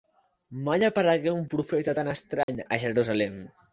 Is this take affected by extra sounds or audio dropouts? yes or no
yes